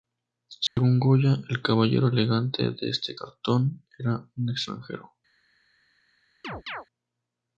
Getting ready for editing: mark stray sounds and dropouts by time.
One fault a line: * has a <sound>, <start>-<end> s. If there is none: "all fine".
* has a dropout, 0.7-0.8 s
* has a chirp, 6.4-6.9 s